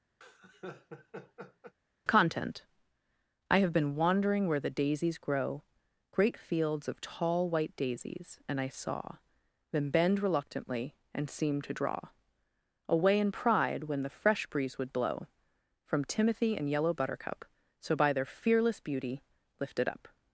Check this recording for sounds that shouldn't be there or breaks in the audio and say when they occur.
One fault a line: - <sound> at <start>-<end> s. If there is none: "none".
- laugh at 0.2-1.7 s